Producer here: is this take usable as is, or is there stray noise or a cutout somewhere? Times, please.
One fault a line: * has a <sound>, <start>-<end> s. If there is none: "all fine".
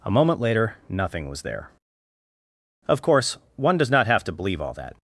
all fine